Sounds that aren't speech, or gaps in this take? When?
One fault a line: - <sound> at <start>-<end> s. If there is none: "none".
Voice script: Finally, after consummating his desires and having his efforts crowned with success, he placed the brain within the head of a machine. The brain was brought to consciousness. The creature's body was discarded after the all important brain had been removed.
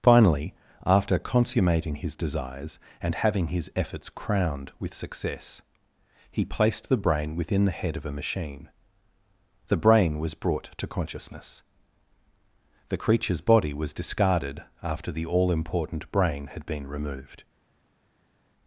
none